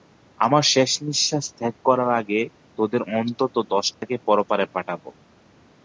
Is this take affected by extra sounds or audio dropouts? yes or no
yes